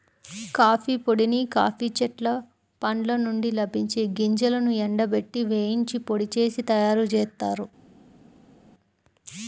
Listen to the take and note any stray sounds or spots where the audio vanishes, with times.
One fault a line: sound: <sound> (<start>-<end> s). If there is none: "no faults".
no faults